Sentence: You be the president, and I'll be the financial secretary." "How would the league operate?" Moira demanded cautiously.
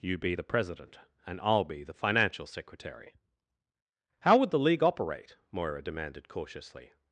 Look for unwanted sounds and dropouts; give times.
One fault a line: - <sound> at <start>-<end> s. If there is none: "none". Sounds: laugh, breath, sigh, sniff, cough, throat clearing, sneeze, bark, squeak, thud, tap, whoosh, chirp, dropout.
none